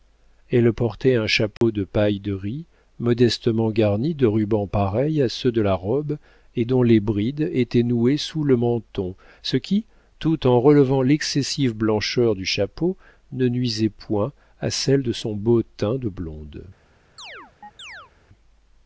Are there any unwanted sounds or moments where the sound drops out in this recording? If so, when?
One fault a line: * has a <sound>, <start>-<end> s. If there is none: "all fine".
* has a dropout, 1.6-1.6 s
* has a chirp, 17.2-18.1 s